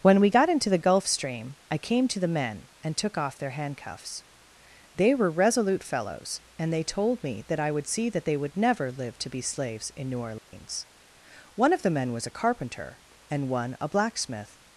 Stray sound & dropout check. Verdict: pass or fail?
fail